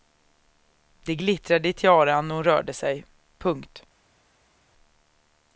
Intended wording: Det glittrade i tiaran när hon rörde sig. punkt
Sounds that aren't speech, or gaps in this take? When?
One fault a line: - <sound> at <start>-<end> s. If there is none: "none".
none